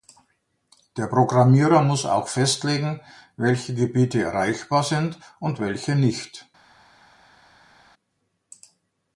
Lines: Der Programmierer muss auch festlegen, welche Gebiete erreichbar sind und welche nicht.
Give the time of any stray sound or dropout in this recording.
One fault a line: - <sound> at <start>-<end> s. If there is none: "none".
none